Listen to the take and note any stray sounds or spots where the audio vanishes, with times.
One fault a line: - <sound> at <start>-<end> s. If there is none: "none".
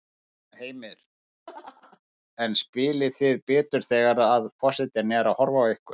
- laugh at 1.5-2.0 s